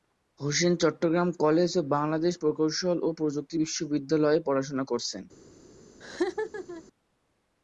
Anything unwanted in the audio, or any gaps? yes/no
yes